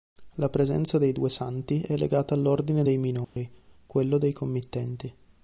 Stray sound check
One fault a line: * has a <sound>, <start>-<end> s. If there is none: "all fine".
* has a dropout, 3.2-3.4 s